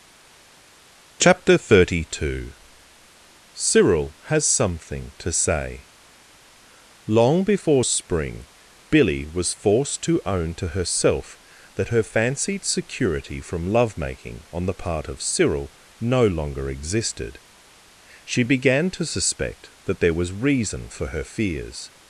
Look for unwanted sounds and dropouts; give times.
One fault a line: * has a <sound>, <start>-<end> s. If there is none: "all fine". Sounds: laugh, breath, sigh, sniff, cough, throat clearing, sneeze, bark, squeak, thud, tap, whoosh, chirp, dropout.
all fine